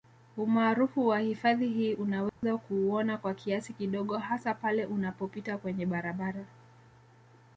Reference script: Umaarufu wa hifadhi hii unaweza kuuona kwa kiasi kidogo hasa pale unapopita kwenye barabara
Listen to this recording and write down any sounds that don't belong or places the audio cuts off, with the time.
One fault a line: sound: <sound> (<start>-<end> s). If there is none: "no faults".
sound: dropout (2.3-2.4 s)